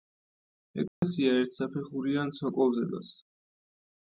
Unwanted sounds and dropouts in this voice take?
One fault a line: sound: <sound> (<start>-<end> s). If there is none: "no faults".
sound: dropout (0.9-1.0 s)